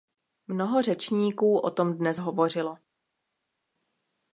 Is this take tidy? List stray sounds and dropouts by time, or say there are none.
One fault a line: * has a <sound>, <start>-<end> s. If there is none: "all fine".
all fine